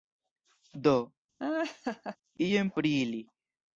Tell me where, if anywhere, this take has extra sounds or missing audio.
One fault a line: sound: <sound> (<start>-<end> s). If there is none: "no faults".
sound: laugh (1.4-2.2 s)